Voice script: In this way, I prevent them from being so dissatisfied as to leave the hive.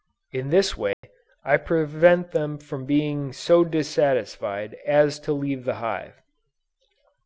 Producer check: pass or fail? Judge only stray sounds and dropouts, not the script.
fail